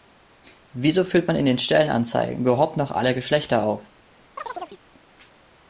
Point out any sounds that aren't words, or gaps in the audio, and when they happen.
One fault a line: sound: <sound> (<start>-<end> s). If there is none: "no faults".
sound: chirp (4.4-4.8 s)